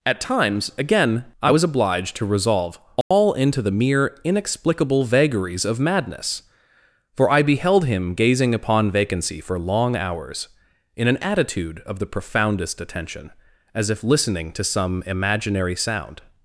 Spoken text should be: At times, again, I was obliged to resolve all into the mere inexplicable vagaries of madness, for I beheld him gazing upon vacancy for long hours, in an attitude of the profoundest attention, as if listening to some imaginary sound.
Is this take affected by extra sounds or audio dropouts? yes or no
yes